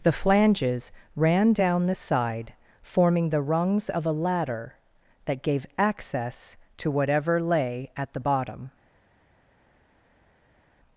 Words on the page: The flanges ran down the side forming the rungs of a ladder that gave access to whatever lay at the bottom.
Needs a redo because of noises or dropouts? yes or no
no